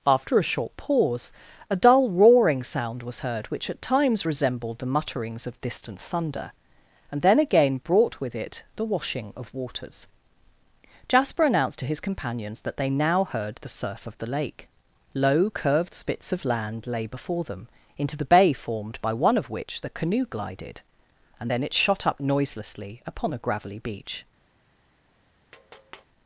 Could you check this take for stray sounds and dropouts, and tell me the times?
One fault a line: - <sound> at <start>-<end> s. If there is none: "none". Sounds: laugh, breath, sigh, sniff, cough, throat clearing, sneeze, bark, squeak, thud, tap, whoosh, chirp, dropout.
- tap at 25.5-26.1 s